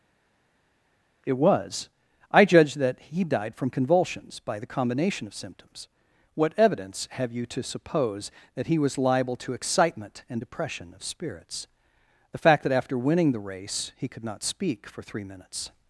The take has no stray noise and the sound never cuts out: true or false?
true